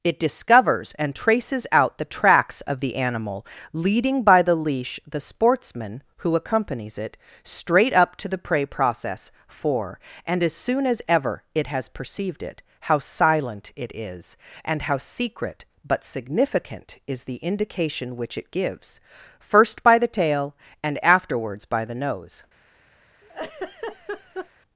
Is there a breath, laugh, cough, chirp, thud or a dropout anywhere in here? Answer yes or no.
yes